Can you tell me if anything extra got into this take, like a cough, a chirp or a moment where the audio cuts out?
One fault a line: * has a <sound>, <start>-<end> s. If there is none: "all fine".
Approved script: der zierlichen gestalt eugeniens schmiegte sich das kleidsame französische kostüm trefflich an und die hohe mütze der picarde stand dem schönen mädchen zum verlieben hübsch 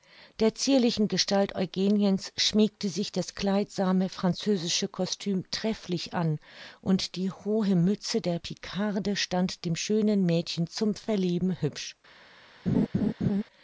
* has a laugh, 12.7-13.4 s